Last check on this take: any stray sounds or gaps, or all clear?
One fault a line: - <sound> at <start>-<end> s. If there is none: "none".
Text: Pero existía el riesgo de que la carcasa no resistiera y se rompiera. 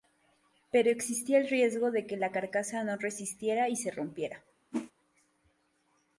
- whoosh at 4.7-4.9 s